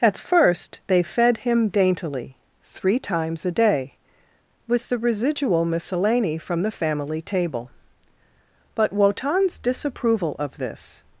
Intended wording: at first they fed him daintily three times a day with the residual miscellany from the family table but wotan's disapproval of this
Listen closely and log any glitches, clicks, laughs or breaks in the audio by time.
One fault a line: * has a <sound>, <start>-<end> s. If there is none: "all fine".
all fine